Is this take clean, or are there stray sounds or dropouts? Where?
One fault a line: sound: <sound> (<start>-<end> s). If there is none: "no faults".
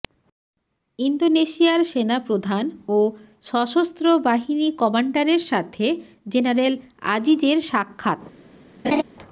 sound: laugh (8.8-9.0 s)